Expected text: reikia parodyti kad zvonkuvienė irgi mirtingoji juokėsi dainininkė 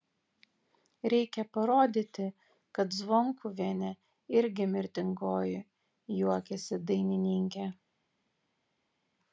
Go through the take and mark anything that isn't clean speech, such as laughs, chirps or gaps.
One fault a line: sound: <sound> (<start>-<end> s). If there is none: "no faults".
no faults